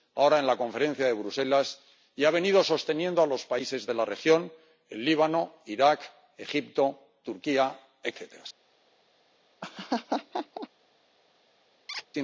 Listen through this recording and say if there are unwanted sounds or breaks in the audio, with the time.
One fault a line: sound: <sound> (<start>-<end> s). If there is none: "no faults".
sound: laugh (9.6-10.7 s)
sound: squeak (11.9-12.1 s)